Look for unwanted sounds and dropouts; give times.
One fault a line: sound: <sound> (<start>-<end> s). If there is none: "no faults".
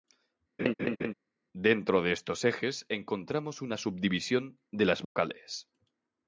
sound: laugh (0.6-1.1 s)
sound: dropout (5.0-5.2 s)